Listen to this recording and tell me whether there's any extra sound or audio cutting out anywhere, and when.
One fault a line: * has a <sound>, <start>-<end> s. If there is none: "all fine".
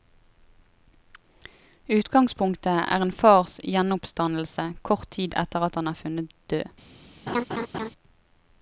* has a laugh, 7.3-7.9 s